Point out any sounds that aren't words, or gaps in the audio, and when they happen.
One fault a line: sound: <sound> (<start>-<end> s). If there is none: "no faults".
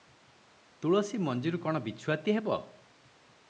no faults